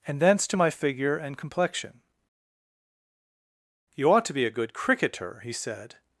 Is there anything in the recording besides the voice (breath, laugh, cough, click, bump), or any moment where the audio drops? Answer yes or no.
no